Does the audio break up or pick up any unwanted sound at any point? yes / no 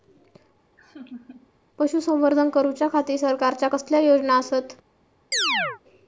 yes